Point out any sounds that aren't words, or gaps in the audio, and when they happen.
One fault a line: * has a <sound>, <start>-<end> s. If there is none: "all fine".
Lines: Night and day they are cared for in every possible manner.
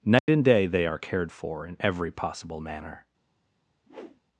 * has a dropout, 0.2-0.3 s
* has a whoosh, 3.9-4.2 s